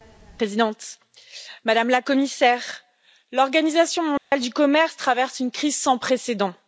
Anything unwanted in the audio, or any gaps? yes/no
yes